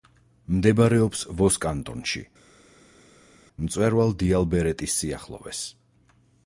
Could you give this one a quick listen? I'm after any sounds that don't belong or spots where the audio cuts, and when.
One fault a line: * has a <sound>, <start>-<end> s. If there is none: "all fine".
all fine